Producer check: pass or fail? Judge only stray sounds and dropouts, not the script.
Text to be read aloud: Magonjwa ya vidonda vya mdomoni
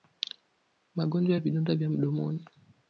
pass